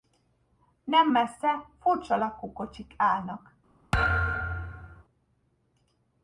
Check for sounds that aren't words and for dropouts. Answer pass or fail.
fail